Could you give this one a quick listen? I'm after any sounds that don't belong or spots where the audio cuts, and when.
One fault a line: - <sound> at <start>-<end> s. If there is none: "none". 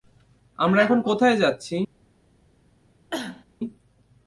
- cough at 3.1-3.4 s